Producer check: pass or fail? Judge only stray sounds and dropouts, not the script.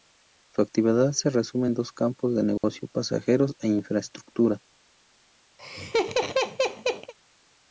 fail